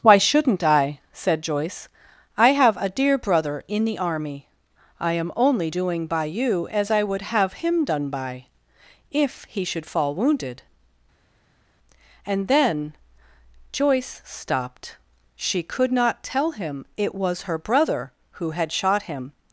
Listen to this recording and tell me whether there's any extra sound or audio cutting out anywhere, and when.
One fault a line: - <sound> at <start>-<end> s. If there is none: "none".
none